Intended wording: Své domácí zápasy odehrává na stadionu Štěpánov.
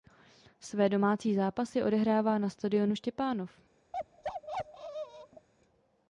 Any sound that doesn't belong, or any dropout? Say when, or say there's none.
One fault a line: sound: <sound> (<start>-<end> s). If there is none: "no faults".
sound: bark (3.9-5.5 s)